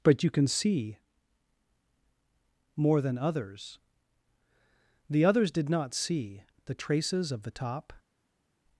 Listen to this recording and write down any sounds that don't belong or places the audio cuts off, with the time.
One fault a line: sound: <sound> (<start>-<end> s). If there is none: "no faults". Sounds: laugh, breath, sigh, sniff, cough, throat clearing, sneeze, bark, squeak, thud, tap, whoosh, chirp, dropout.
no faults